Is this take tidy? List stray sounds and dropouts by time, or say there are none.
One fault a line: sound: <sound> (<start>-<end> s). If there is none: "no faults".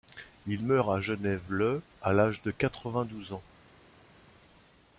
no faults